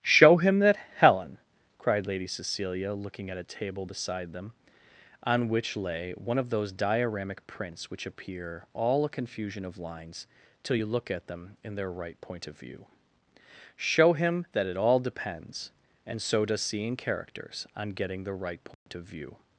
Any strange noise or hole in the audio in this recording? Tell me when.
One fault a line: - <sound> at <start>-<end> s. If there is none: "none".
- dropout at 18.7-18.9 s